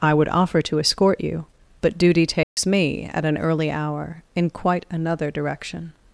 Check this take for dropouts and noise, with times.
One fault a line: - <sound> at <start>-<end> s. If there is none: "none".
- dropout at 2.4-2.6 s